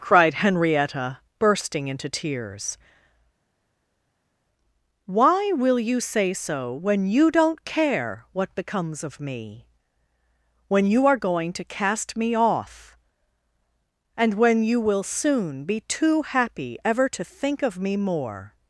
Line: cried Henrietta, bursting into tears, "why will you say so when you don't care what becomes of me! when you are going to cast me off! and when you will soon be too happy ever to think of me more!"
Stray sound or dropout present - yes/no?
no